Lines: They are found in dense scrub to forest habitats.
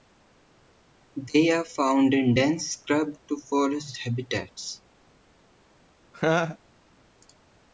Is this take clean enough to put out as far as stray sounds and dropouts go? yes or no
no